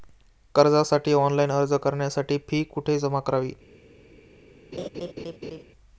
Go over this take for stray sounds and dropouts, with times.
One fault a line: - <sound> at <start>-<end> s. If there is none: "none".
- laugh at 4.7-5.6 s